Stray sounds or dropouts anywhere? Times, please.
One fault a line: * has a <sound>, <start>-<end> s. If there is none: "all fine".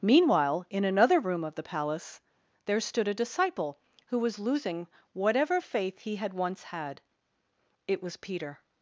all fine